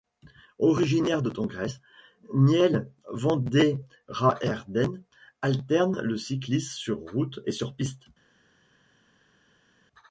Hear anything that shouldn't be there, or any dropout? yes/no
no